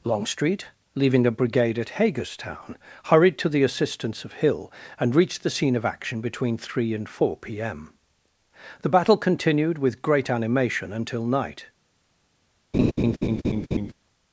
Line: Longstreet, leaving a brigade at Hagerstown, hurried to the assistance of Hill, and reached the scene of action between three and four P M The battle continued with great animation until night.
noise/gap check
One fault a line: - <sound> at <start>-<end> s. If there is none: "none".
- laugh at 12.7-13.9 s